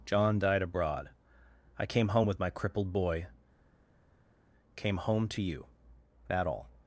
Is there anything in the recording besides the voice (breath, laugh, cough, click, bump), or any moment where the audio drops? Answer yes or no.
no